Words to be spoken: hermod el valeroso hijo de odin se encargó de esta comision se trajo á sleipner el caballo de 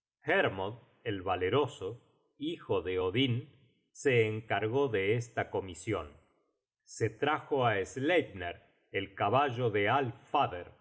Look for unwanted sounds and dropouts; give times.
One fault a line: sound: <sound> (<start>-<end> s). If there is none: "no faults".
no faults